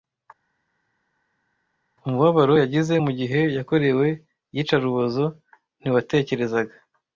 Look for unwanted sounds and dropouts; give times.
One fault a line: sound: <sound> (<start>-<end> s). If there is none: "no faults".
no faults